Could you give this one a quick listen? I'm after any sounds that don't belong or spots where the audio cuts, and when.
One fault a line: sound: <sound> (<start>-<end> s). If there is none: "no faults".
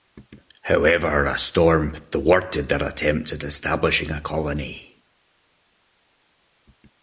no faults